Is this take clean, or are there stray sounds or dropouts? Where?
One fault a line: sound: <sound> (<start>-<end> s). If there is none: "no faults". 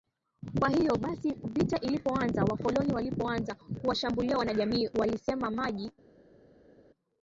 no faults